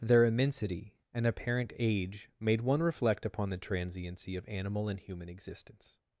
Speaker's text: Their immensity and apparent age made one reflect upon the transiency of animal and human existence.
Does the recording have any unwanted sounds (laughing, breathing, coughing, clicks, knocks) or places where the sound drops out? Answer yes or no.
no